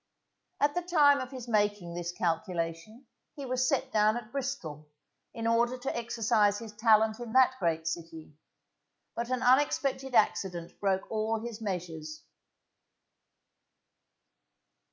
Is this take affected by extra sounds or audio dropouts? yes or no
no